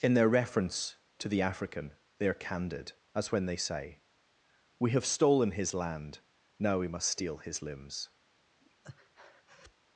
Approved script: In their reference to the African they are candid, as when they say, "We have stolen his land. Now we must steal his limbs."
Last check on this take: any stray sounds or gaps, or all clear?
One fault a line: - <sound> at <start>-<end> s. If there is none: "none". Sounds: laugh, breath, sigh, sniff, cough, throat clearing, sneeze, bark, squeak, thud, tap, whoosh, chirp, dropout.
- breath at 8.6-9.7 s